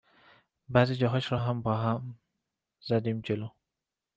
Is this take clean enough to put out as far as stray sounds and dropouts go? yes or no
yes